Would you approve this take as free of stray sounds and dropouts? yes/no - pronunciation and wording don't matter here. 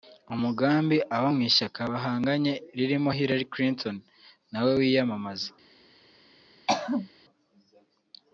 no